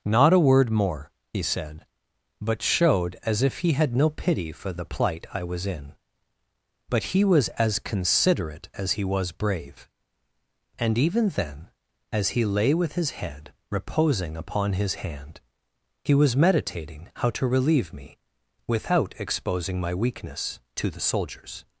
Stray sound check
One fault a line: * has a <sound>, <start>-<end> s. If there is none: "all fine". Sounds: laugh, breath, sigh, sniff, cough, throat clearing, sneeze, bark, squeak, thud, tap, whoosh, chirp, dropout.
all fine